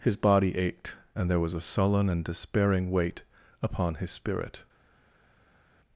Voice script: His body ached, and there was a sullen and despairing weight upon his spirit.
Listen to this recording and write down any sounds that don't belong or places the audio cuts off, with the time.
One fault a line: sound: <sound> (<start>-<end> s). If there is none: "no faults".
no faults